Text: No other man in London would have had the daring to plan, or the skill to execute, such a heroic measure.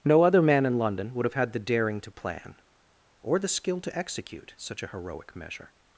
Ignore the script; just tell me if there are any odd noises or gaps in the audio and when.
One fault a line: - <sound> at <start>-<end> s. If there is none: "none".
none